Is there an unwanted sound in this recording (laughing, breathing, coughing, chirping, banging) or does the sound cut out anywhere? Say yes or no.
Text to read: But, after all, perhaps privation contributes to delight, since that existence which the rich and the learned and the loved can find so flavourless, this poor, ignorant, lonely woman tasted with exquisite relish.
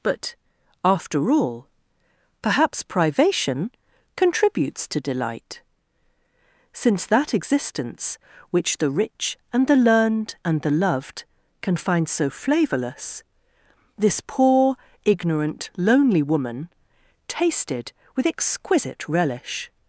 no